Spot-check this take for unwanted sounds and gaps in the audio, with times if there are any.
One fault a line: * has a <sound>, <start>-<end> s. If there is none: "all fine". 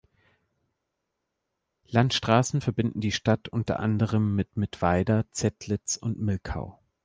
all fine